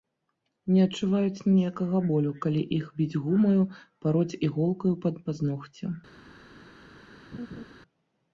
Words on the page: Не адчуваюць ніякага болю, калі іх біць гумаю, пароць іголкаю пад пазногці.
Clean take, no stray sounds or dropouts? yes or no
no